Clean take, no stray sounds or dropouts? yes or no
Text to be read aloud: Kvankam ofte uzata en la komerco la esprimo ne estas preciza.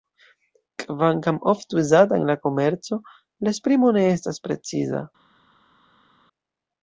yes